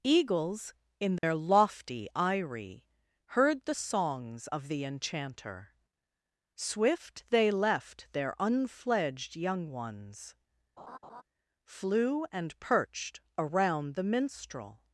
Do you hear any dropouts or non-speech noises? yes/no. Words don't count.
yes